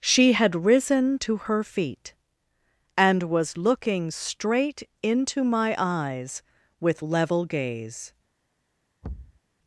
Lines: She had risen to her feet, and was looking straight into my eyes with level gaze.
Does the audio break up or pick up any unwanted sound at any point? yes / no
yes